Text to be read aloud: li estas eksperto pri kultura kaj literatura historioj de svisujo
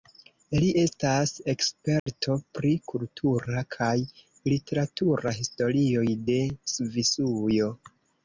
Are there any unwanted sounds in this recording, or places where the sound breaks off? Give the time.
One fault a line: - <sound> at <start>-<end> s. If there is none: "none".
- dropout at 2.0-2.1 s